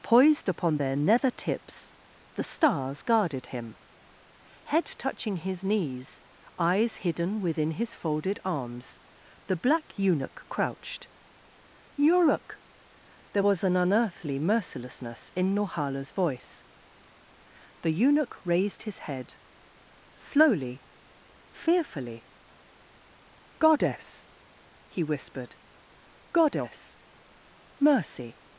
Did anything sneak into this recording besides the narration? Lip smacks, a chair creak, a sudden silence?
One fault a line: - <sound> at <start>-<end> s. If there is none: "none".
none